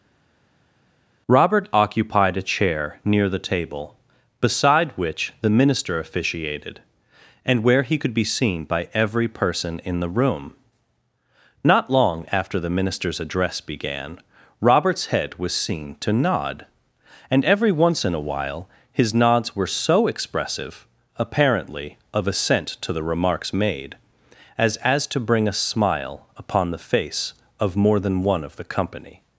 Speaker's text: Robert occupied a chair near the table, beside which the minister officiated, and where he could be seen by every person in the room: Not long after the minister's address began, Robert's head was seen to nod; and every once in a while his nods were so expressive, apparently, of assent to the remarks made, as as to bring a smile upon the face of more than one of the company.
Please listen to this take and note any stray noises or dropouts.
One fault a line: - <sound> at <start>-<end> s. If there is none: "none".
none